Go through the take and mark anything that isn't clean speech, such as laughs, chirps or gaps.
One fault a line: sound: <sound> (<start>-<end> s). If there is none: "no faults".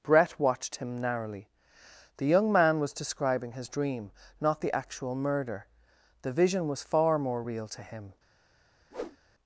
sound: whoosh (8.9-9.2 s)